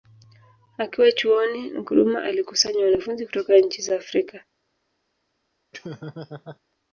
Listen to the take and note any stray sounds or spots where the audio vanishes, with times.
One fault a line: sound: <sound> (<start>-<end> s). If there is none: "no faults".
sound: laugh (5.7-6.6 s)